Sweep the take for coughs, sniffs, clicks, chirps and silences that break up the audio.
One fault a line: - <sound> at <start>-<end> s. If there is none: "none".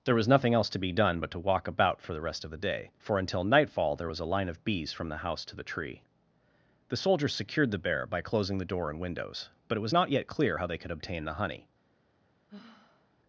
- sigh at 12.5-13.2 s